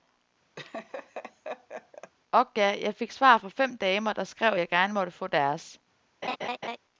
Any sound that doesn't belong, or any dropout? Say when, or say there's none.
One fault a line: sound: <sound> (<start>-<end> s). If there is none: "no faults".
sound: laugh (0.6-2.1 s)
sound: laugh (6.2-6.8 s)